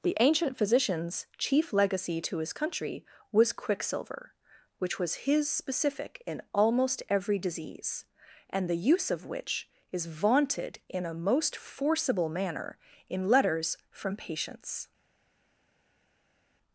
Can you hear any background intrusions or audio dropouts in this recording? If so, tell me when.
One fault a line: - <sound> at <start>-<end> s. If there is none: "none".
none